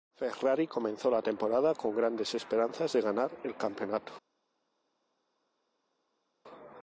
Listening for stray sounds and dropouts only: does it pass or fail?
pass